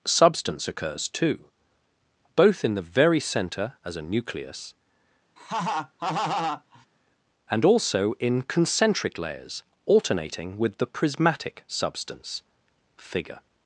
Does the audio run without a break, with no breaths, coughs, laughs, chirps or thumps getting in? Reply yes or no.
no